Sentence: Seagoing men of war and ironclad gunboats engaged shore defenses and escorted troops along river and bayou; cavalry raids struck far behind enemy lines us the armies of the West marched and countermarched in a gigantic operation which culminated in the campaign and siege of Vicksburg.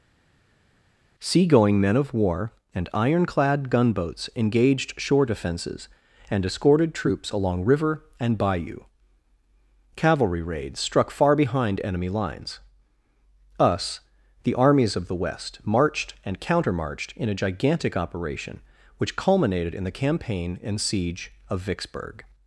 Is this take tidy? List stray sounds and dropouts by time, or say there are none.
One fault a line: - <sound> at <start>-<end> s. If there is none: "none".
none